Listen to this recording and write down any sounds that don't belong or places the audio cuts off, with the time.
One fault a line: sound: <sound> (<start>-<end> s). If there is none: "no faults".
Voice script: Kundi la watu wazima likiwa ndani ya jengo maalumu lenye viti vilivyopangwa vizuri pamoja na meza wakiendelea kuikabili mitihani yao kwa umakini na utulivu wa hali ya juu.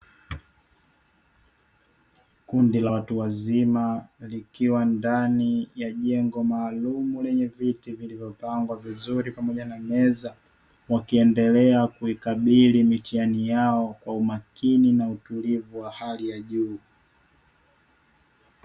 no faults